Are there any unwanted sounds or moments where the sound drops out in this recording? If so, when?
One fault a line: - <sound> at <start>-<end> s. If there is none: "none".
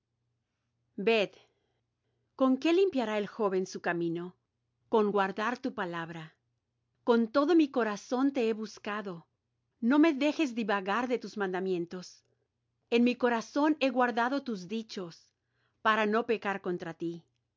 none